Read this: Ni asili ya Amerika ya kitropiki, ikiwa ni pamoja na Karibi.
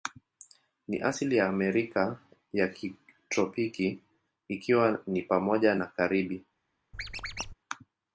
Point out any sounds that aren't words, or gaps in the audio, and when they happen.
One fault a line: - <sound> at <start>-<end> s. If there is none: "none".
- squeak at 6.9-7.5 s